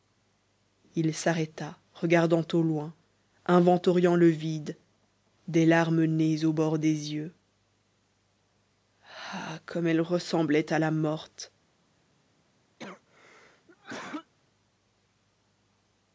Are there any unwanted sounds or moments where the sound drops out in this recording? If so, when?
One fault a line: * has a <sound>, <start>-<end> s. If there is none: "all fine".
* has a cough, 12.8-14.3 s